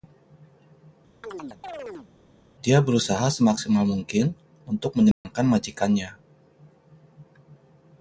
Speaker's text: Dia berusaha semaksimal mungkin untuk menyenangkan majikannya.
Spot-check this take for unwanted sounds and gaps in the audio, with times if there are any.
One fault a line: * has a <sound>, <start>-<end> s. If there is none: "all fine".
* has a chirp, 1.2-2.1 s
* has a dropout, 5.1-5.2 s